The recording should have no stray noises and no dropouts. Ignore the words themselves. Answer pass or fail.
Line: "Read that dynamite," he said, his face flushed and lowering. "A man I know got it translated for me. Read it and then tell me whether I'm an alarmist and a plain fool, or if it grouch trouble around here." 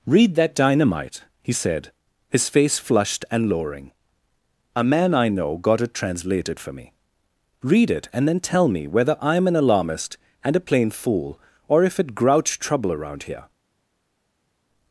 pass